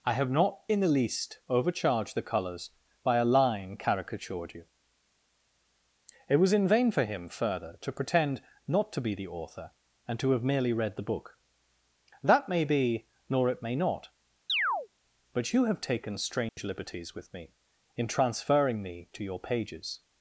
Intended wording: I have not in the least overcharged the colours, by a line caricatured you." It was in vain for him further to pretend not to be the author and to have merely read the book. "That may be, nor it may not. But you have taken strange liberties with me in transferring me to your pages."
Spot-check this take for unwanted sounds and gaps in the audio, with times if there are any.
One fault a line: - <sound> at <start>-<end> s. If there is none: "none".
- chirp at 14.5-14.9 s
- dropout at 16.5-16.6 s